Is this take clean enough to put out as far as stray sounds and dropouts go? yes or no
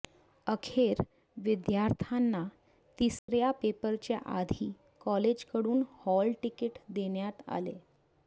no